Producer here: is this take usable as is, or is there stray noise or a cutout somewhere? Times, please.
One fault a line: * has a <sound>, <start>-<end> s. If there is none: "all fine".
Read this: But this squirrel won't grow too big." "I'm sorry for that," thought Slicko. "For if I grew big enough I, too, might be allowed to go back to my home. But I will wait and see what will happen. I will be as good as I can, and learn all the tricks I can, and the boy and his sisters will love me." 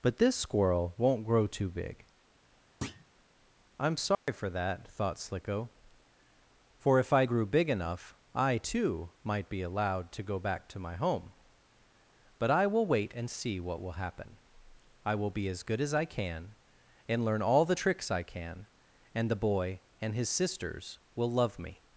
* has a thud, 2.8-3.1 s
* has a dropout, 4.1-4.3 s